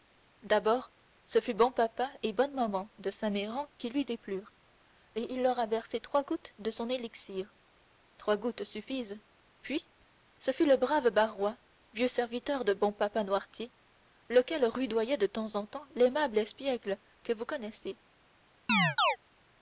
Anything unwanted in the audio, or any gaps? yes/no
yes